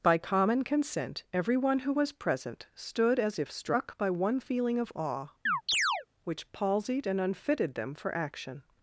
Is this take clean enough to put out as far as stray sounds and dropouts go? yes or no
no